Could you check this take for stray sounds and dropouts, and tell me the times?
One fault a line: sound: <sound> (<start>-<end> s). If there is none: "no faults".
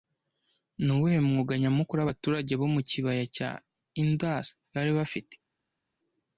no faults